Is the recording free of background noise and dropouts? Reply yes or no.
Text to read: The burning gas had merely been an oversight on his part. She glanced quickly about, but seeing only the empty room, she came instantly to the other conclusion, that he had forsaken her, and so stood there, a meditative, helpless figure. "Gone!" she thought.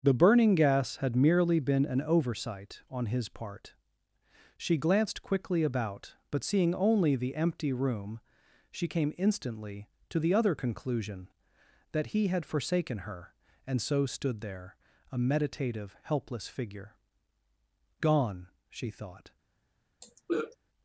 no